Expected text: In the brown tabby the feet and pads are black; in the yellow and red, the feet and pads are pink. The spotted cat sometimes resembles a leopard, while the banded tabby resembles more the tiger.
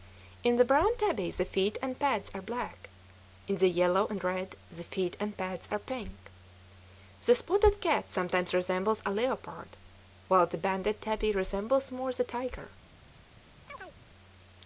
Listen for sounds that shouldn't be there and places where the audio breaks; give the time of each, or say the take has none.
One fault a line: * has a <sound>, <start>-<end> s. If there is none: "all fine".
* has a chirp, 13.7-14.0 s